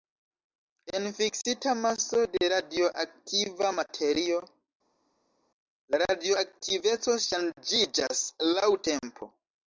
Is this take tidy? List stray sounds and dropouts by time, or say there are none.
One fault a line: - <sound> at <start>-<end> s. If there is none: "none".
none